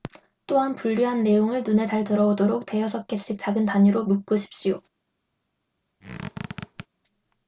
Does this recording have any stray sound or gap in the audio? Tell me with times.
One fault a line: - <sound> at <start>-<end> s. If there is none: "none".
- squeak at 6.0-6.9 s